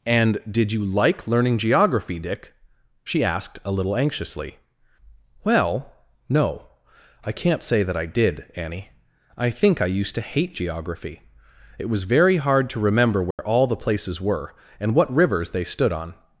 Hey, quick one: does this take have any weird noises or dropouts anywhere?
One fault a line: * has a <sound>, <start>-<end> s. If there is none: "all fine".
* has a dropout, 13.3-13.4 s